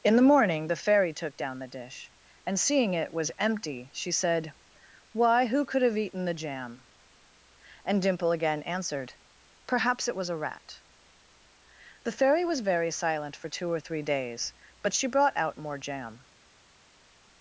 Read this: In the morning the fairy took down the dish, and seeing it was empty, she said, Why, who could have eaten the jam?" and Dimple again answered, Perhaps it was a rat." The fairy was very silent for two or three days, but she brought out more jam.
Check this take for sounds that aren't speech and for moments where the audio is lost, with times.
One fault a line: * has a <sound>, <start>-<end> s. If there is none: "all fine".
all fine